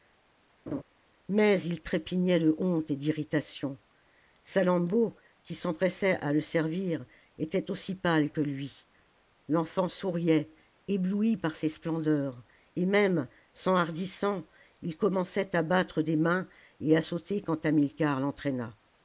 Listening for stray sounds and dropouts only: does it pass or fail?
fail